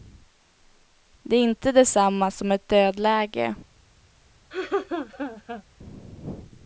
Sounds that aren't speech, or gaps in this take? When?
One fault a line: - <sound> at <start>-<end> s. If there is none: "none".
- laugh at 4.5-5.6 s